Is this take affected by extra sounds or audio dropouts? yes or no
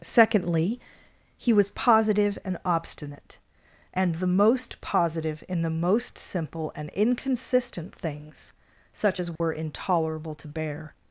yes